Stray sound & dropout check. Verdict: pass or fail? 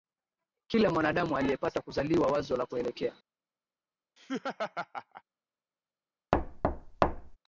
fail